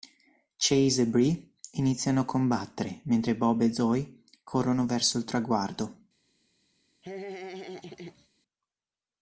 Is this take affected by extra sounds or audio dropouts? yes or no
yes